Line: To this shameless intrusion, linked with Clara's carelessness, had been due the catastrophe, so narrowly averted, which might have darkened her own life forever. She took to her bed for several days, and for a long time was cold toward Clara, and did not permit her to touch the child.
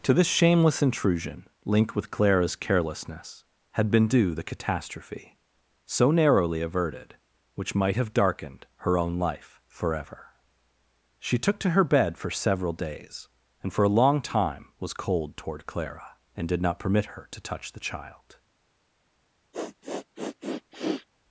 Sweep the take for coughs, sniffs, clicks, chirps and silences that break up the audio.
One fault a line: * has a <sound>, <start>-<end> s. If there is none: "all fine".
* has a sniff, 19.5-21.1 s